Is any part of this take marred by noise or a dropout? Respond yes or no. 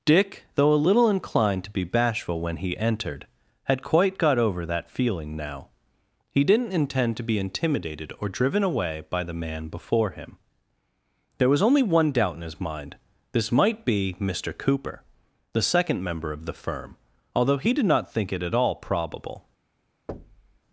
yes